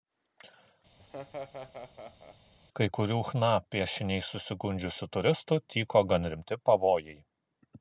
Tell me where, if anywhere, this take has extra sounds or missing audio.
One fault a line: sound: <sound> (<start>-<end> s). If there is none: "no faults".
sound: laugh (1.0-2.4 s)